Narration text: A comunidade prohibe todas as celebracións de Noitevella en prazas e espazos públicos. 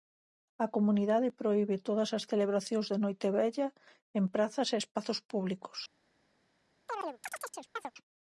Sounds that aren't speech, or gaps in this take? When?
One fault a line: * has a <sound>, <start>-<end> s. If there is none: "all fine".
* has a chirp, 6.9-7.9 s